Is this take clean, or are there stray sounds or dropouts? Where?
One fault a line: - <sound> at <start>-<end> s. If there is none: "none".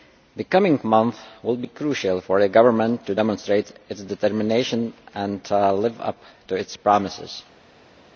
none